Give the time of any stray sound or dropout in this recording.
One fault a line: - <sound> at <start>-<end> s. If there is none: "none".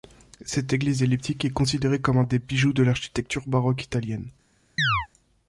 - chirp at 4.8-5.1 s